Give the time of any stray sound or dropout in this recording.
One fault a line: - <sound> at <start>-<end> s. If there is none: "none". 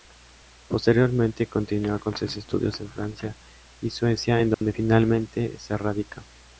- dropout at 4.5-4.6 s